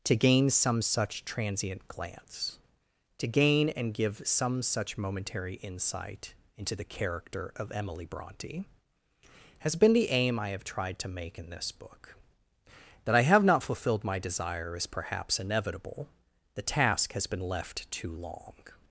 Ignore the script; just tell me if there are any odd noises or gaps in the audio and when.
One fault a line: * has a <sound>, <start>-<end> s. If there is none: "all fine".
all fine